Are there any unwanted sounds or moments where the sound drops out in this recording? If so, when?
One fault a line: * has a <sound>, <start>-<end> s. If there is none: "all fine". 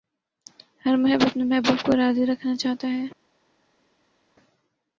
all fine